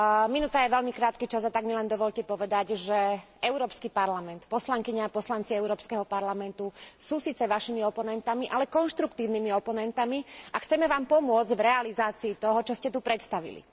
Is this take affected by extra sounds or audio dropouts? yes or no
no